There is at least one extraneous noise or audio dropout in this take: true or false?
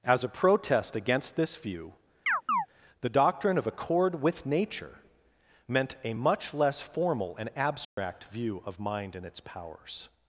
true